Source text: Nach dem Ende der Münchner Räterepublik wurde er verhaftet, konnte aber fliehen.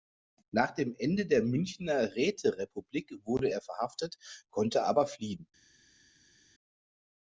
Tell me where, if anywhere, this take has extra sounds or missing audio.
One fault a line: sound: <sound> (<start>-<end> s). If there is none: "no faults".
no faults